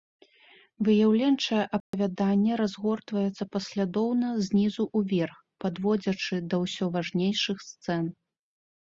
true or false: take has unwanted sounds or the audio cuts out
true